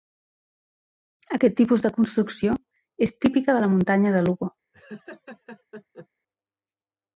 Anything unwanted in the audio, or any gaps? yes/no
yes